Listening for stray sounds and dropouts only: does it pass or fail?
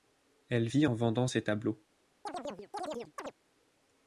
fail